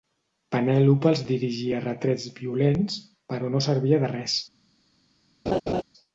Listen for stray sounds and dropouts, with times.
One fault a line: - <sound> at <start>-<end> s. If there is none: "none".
- laugh at 5.5-5.8 s